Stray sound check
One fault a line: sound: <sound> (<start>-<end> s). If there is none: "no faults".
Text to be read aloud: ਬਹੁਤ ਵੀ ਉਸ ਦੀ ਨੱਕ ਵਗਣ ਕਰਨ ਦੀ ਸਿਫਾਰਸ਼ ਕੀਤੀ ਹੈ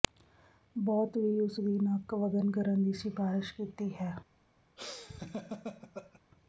sound: laugh (4.8-6.2 s)